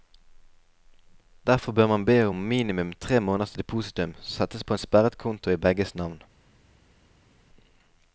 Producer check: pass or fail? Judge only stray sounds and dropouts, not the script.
pass